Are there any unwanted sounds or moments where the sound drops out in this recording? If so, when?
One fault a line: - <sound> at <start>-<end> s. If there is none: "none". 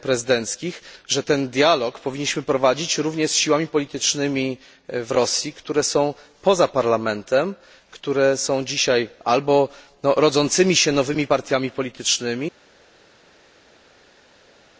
none